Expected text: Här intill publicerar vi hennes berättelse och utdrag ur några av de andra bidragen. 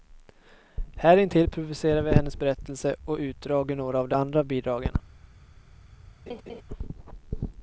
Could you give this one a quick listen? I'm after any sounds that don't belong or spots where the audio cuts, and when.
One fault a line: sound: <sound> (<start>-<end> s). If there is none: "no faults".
sound: laugh (6.3-6.6 s)